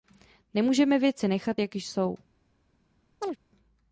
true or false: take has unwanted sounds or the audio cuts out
true